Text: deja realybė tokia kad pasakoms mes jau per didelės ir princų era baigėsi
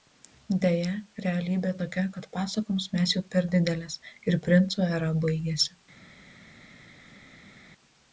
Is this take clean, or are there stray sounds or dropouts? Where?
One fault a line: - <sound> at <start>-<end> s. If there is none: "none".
none